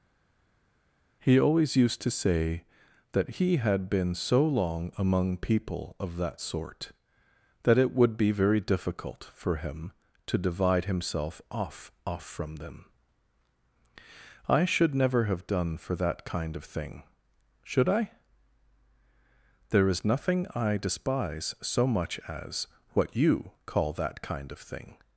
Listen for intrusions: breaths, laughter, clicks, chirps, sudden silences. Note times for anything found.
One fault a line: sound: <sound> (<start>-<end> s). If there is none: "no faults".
no faults